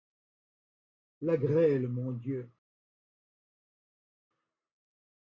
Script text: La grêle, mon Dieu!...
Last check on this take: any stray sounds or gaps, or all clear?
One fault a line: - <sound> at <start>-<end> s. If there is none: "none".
none